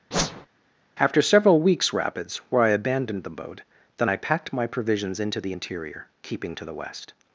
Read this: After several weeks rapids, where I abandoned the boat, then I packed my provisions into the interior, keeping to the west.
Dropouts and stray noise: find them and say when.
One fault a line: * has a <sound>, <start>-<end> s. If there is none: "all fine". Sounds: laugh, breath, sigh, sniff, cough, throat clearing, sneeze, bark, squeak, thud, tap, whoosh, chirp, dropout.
* has a whoosh, 0.1-0.5 s